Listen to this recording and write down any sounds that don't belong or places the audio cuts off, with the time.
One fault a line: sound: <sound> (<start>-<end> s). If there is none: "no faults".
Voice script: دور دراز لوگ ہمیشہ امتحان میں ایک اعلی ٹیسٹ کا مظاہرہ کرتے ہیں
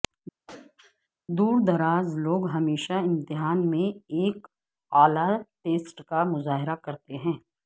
sound: throat clearing (0.5-1.1 s)